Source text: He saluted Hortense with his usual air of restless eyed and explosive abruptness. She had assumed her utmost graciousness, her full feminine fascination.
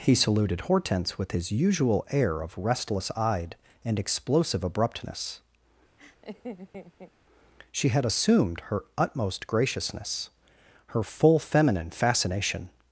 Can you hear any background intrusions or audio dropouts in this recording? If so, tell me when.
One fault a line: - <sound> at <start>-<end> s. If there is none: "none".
- laugh at 6.0-7.1 s